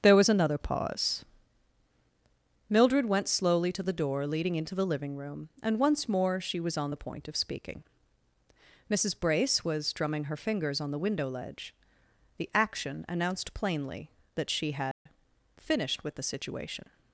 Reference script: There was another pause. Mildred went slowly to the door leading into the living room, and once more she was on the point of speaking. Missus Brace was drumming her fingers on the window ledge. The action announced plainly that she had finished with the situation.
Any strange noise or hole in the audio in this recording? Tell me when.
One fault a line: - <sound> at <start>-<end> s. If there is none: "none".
- dropout at 14.9-15.1 s